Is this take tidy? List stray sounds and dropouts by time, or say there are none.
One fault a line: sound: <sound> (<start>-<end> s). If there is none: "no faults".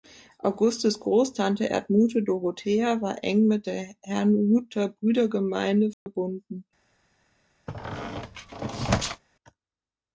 sound: dropout (5.9-6.1 s)
sound: squeak (7.7-9.2 s)